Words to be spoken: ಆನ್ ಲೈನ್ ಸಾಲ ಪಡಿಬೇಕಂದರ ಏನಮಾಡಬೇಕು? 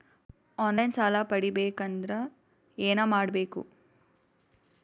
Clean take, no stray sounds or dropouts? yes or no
yes